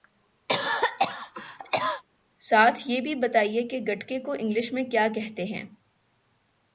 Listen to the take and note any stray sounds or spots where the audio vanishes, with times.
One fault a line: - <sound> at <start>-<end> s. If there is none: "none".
- cough at 0.5-2.0 s